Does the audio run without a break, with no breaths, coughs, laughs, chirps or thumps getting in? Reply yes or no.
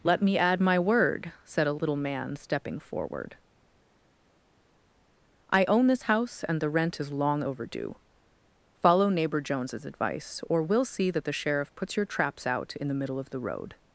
yes